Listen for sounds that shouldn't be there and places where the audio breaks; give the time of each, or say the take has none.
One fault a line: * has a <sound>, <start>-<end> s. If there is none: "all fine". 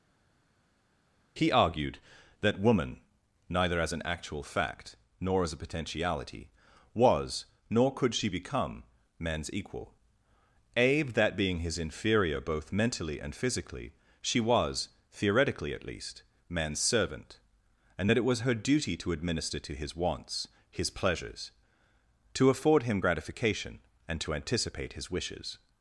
all fine